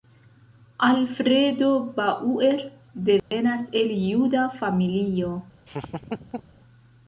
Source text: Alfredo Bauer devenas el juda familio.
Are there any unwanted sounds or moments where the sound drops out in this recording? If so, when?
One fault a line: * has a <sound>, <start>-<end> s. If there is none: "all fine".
* has a dropout, 3.2-3.3 s
* has a laugh, 5.7-6.5 s